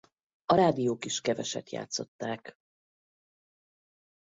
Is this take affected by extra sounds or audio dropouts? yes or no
no